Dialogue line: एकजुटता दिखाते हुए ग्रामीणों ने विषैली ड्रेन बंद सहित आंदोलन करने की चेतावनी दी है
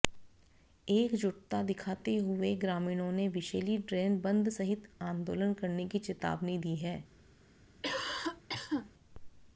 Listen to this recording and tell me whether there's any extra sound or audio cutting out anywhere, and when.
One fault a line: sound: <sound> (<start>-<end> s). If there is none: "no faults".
sound: cough (7.8-8.9 s)